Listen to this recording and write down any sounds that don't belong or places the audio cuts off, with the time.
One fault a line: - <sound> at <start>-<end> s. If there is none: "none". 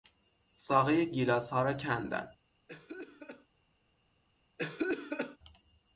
- cough at 2.7-3.5 s
- cough at 4.6-5.4 s